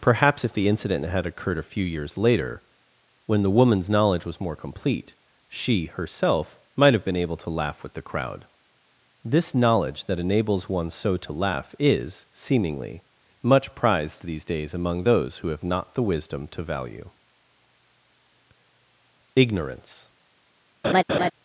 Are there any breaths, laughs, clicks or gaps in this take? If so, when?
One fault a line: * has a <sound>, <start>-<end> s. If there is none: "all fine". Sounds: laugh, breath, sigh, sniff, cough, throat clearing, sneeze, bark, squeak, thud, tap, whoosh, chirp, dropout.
* has a laugh, 20.8-21.3 s